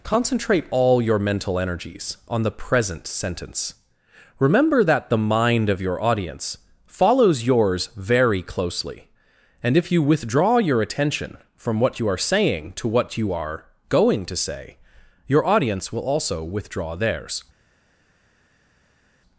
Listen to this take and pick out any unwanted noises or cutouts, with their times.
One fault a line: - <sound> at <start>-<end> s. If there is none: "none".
none